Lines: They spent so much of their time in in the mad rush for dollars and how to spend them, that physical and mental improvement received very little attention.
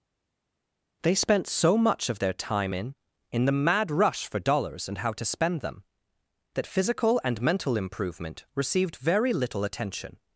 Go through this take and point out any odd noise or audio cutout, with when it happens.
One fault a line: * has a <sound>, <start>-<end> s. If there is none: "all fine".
all fine